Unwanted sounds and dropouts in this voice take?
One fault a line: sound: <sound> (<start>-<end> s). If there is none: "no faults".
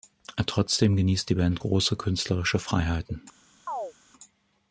sound: chirp (3.7-3.9 s)